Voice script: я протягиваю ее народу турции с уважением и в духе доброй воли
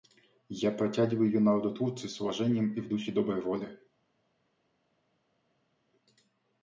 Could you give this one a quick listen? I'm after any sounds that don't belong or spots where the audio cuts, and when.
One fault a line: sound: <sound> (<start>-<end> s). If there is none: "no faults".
no faults